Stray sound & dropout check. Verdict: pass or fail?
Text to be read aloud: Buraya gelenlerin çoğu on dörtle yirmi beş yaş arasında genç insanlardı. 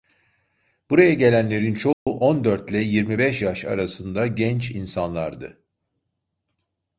fail